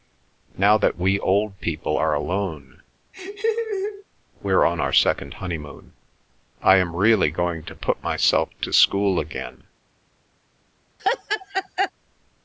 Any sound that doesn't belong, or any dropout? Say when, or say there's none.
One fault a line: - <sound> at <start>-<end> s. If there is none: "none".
- laugh at 3.1-4.0 s
- laugh at 11.0-11.9 s